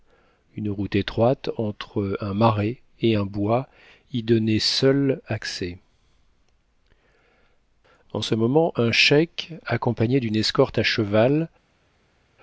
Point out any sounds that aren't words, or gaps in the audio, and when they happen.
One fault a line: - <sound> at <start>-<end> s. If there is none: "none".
none